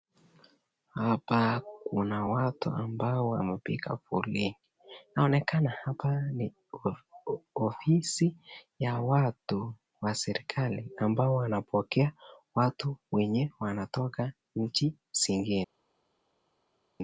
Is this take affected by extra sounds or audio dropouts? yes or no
no